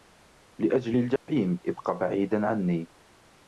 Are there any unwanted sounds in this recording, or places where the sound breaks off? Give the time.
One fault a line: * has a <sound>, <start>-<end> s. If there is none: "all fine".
* has a dropout, 1.2-1.3 s